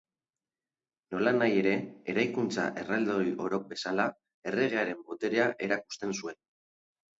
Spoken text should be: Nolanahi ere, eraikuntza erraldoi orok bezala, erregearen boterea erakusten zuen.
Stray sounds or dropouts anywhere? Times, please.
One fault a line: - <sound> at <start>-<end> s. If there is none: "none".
none